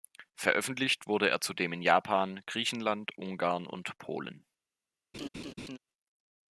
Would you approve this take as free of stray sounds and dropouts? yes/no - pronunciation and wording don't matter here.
no